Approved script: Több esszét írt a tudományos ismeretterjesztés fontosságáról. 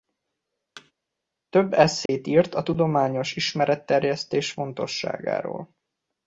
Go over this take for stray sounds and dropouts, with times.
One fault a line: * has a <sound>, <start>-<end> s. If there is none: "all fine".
* has a thud, 0.8-0.9 s
* has a dropout, 2.1-2.1 s